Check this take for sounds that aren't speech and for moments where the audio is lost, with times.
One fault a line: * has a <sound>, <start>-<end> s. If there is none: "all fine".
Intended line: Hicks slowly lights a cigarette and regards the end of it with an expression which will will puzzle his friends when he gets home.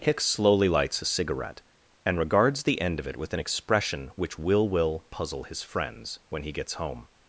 all fine